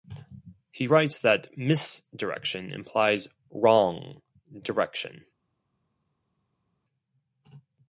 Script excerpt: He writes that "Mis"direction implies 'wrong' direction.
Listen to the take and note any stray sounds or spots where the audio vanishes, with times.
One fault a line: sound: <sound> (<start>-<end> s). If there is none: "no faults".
no faults